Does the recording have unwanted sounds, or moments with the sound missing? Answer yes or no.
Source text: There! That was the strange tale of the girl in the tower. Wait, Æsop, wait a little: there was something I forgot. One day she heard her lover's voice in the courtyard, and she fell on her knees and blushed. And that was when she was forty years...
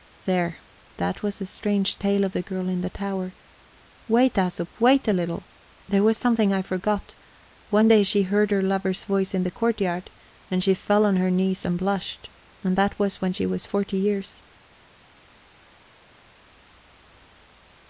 no